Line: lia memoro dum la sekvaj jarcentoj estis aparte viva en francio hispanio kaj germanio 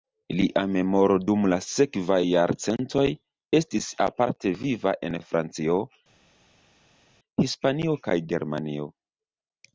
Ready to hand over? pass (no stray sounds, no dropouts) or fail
pass